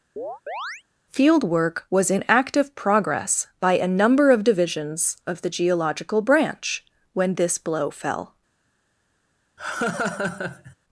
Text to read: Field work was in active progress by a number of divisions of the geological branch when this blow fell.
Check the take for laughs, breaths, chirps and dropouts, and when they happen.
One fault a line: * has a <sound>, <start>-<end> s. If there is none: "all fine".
* has a chirp, 0.2-0.8 s
* has a laugh, 9.6-10.8 s